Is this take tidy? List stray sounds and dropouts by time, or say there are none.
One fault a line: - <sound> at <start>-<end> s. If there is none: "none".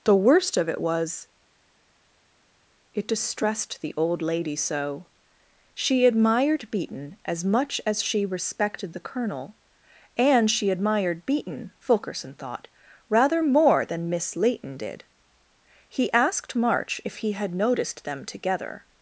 none